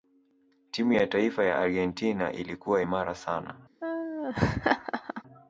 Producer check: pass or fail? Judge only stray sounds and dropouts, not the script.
fail